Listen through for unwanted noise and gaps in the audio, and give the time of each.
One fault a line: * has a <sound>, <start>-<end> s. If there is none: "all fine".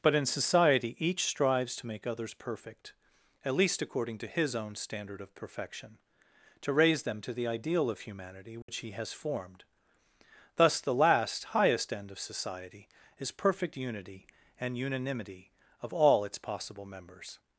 * has a dropout, 8.6-8.7 s